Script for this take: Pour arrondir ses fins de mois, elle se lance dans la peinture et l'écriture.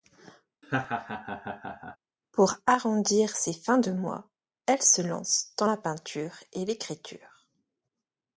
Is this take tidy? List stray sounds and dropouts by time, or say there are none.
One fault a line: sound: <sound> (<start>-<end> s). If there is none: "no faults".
sound: laugh (0.6-2.0 s)